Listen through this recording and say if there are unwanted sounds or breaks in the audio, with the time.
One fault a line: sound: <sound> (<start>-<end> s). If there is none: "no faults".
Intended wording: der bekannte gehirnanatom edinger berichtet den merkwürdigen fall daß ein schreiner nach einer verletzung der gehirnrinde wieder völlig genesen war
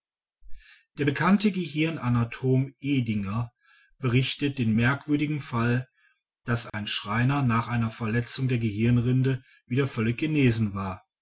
sound: dropout (6.7-6.7 s)